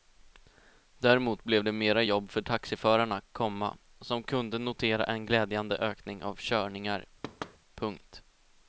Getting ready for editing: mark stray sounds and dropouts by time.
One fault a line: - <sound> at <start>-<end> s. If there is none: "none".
- thud at 7.2-7.6 s